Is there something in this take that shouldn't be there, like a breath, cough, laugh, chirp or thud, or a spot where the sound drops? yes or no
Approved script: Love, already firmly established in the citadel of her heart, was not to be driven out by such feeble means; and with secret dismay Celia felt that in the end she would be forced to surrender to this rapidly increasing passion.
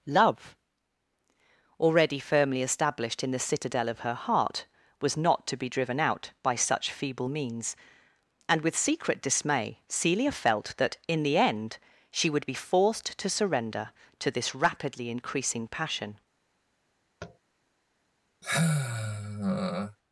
yes